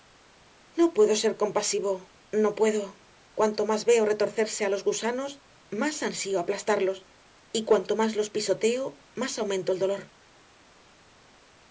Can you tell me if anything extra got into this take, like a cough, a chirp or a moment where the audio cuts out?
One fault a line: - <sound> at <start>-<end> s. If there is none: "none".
none